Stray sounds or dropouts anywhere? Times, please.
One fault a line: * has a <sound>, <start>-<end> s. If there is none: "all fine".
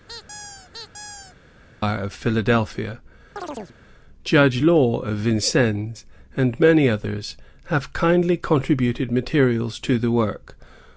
* has a squeak, 0.1-1.4 s
* has a chirp, 3.4-3.8 s